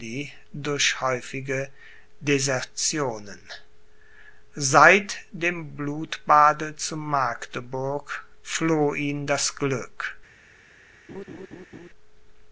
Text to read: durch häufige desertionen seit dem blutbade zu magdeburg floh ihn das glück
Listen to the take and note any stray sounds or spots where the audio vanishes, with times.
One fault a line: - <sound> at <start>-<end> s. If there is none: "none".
- laugh at 11.1-11.9 s